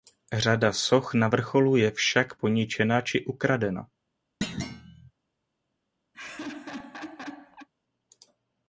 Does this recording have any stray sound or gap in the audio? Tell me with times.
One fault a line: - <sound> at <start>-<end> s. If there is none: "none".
- thud at 4.4-5.1 s
- laugh at 6.1-7.7 s